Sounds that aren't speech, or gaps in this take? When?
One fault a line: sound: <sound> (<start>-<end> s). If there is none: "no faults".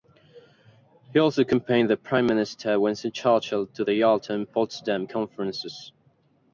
no faults